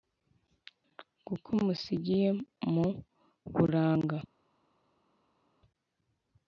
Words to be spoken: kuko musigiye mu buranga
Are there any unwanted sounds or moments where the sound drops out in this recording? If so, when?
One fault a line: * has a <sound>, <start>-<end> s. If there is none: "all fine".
all fine